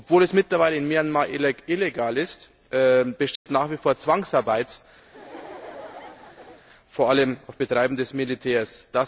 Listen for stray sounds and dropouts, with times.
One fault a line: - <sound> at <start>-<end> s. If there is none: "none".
- dropout at 3.4-3.5 s
- laugh at 5.1-6.6 s